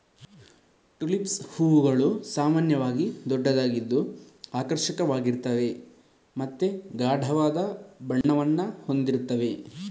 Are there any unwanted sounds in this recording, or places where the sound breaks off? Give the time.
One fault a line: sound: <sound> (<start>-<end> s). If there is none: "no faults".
sound: dropout (8.2-8.2 s)